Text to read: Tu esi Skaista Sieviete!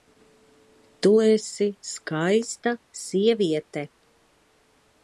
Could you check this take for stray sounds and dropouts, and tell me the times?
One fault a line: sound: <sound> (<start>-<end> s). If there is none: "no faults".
no faults